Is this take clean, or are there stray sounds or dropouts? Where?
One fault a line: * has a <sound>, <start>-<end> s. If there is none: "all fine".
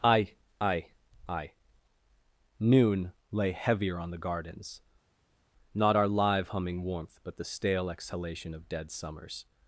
all fine